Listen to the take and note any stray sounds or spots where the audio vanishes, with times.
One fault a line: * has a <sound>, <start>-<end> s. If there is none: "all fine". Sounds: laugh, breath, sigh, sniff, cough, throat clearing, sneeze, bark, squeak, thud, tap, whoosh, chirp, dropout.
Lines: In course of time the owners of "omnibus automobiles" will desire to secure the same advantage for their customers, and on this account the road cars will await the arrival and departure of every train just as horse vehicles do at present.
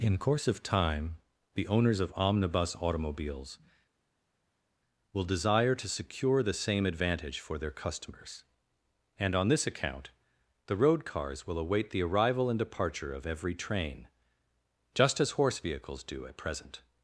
all fine